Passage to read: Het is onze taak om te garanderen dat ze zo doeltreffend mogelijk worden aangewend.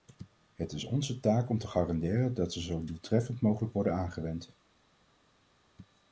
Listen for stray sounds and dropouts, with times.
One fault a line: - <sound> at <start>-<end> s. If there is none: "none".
none